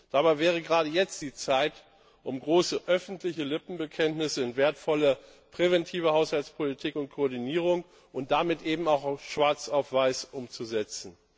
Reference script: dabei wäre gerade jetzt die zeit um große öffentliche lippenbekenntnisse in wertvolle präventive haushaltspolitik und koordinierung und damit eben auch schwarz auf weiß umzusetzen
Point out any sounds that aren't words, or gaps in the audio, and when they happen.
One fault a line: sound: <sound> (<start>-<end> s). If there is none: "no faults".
no faults